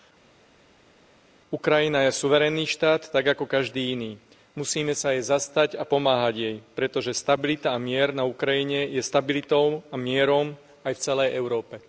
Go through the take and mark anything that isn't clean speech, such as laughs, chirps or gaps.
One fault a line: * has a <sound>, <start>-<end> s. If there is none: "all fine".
all fine